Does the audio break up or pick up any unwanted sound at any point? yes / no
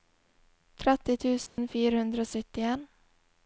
yes